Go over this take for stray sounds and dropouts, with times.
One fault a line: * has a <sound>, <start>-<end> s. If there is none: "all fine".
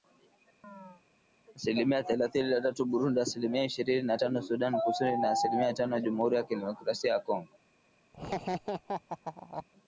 * has a chirp, 0.6-1.0 s
* has a laugh, 8.1-9.7 s